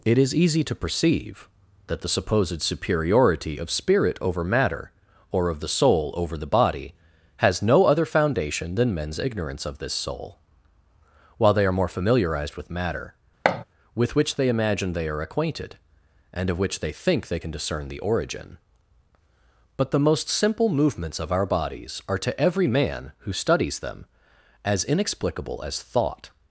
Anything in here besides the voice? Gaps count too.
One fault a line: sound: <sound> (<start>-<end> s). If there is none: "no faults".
sound: thud (13.4-13.6 s)